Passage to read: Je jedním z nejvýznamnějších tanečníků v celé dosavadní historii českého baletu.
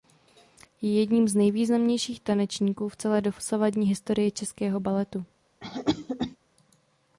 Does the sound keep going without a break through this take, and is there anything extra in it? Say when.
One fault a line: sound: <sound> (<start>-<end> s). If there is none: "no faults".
sound: cough (5.6-6.4 s)